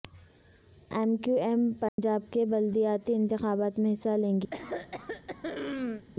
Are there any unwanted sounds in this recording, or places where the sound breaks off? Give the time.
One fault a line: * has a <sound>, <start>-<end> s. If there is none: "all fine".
* has a dropout, 1.9-2.0 s
* has a throat clearing, 4.5-6.1 s